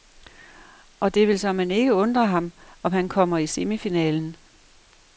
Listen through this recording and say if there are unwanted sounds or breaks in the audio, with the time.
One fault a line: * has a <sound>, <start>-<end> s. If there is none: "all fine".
all fine